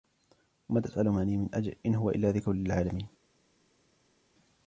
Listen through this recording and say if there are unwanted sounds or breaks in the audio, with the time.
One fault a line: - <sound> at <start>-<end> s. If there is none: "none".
none